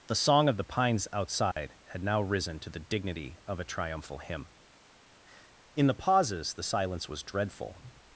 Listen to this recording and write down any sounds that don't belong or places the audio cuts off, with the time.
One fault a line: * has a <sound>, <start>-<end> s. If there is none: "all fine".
* has a dropout, 1.5-1.6 s